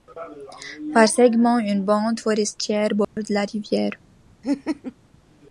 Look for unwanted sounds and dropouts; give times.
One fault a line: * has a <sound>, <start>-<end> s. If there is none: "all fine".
* has a dropout, 3.0-3.2 s
* has a laugh, 4.4-5.0 s